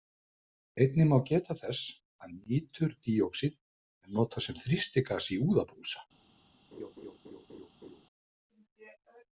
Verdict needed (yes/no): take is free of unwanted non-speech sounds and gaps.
no